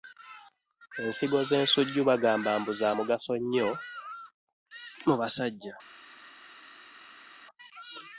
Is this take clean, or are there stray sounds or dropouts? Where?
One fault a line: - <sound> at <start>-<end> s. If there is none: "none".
none